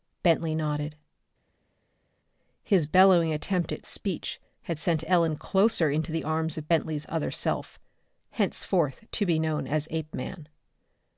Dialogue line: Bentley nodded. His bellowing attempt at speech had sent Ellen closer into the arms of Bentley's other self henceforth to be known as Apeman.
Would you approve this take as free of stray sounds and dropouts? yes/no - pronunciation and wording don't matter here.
yes